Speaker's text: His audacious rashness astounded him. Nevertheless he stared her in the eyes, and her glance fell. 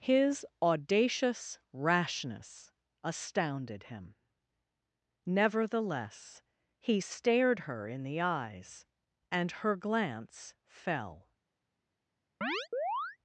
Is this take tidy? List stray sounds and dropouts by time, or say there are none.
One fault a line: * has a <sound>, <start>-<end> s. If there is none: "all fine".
* has a chirp, 12.4-13.2 s